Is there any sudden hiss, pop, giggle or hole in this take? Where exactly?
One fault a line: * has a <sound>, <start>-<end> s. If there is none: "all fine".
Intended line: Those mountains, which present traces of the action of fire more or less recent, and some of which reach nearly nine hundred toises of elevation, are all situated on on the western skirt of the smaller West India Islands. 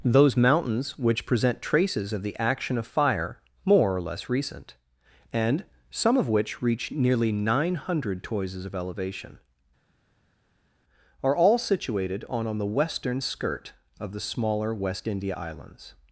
all fine